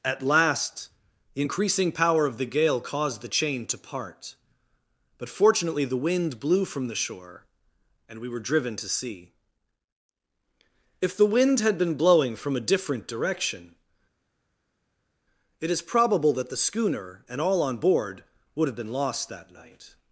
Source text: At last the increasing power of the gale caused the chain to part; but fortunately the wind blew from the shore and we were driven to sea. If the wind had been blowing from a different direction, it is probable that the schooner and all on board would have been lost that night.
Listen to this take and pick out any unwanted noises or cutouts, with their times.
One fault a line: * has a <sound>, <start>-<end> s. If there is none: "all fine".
all fine